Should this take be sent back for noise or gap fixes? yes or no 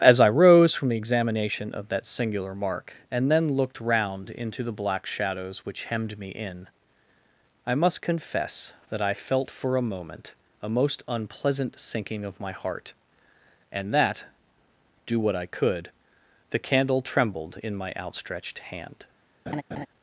yes